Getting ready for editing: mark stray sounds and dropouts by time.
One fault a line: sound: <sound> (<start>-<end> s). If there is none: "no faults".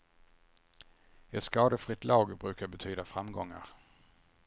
no faults